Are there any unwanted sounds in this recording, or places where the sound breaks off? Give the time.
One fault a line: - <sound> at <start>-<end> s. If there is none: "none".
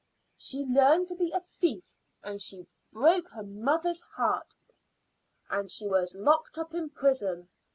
none